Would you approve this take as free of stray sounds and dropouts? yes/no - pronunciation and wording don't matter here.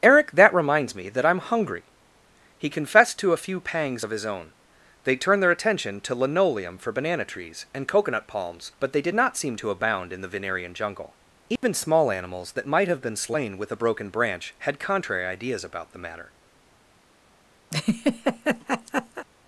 no